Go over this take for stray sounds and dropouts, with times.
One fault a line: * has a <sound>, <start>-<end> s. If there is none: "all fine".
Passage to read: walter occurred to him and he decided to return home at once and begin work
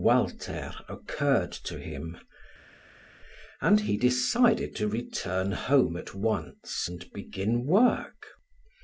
all fine